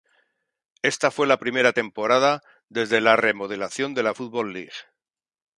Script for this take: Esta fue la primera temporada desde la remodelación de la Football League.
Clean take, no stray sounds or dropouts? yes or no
yes